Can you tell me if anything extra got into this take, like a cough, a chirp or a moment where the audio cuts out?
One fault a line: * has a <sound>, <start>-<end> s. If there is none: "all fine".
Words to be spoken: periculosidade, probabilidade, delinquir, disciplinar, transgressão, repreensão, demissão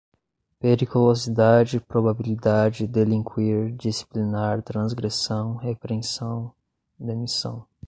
all fine